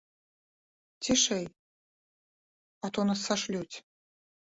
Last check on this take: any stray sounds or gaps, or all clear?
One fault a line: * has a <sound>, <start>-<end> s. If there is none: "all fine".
all fine